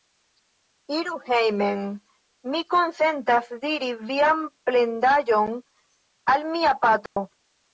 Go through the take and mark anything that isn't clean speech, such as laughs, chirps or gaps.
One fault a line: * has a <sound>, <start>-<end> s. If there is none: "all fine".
* has a dropout, 7.1-7.2 s